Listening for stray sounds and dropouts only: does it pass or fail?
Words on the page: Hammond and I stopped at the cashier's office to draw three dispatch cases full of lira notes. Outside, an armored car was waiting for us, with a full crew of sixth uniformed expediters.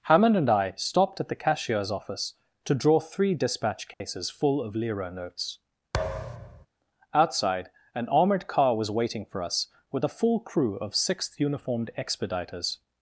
fail